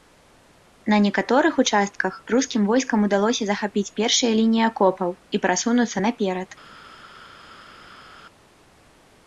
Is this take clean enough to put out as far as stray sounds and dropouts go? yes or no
yes